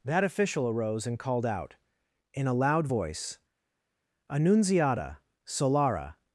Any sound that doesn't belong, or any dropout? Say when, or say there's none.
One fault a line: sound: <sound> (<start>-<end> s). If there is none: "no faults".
no faults